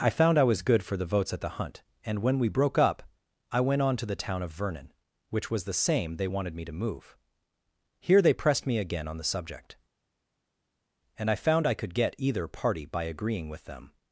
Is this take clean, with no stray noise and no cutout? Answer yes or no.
yes